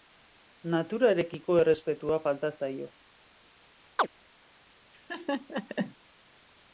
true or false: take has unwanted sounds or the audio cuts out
true